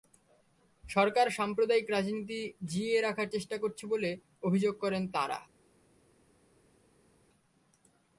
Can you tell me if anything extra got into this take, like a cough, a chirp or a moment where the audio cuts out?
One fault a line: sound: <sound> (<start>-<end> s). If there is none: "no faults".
no faults